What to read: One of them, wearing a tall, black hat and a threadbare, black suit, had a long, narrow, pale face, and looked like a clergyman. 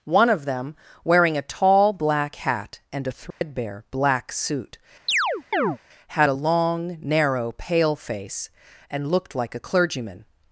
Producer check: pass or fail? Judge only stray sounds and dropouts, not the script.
fail